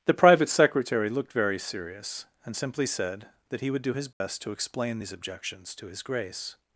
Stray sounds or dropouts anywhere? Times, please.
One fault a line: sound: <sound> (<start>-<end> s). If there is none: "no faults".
sound: dropout (4.1-4.2 s)